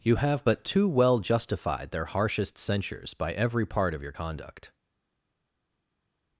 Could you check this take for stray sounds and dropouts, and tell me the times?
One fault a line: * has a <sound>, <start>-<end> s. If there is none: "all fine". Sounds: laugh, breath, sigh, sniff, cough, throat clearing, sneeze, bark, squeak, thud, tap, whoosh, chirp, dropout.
all fine